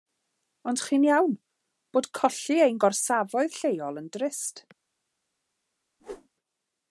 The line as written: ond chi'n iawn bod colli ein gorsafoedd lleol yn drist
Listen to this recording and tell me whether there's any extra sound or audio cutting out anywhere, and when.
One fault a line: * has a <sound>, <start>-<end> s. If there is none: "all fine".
* has a whoosh, 6.0-6.3 s